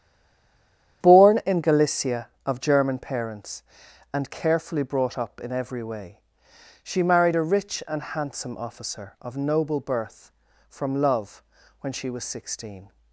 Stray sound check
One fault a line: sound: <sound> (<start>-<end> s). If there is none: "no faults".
no faults